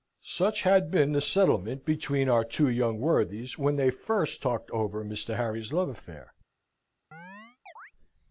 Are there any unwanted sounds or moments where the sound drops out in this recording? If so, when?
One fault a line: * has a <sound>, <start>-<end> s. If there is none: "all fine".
* has a chirp, 7.1-7.9 s